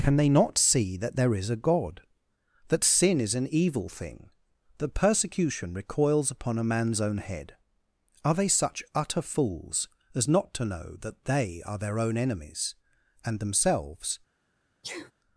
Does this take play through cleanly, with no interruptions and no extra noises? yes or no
no